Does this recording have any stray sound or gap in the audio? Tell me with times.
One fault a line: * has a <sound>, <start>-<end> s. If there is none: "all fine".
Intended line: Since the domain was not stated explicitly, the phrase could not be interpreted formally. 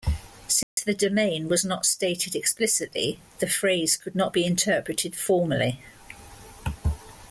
* has a dropout, 0.6-0.8 s